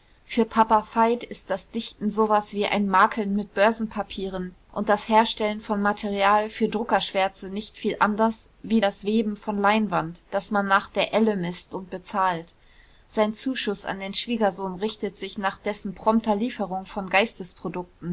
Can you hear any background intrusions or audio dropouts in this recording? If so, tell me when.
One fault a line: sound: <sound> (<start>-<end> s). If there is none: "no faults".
no faults